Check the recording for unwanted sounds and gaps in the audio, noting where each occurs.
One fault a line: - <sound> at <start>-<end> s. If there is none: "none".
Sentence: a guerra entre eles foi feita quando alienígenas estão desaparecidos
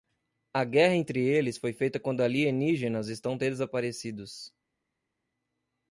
none